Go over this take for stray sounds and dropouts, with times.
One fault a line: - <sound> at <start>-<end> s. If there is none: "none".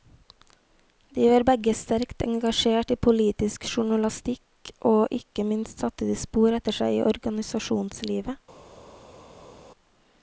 none